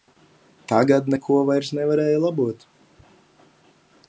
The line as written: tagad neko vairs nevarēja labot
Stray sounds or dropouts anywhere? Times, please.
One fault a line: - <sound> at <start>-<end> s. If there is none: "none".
none